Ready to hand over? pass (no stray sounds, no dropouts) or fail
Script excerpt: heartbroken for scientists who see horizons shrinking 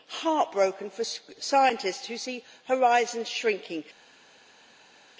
pass